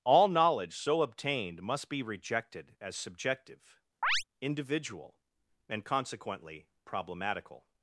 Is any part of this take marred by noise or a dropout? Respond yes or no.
yes